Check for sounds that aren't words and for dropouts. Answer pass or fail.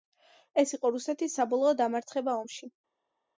pass